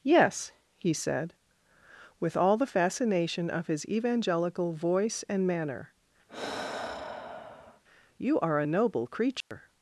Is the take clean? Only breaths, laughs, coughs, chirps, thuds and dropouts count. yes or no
no